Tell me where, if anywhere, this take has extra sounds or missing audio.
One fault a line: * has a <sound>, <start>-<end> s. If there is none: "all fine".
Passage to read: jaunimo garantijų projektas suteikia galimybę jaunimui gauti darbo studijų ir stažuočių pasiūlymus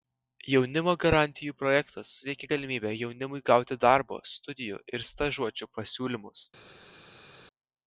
all fine